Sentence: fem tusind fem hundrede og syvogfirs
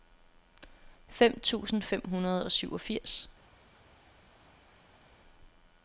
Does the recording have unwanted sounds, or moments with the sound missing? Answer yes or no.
no